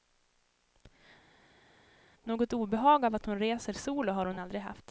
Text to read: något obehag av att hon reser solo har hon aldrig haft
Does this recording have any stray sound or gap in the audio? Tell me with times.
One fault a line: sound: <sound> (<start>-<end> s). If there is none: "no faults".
no faults